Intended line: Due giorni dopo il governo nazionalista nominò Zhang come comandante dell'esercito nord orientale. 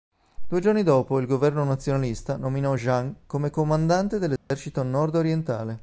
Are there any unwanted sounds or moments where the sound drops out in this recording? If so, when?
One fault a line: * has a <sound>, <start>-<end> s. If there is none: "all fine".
* has a dropout, 4.4-4.5 s